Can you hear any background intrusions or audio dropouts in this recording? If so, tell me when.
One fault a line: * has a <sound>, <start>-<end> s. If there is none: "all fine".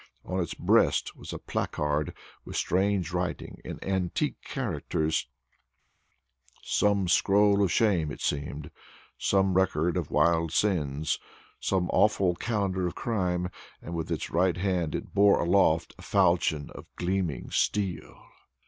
all fine